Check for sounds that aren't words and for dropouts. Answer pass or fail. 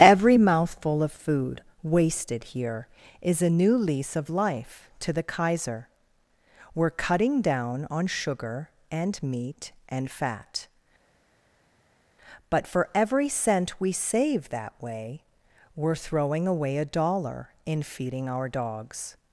pass